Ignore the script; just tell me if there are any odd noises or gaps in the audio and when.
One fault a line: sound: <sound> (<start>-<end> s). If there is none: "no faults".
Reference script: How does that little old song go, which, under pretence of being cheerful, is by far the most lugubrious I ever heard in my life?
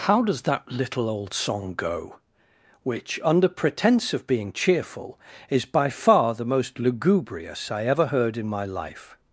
no faults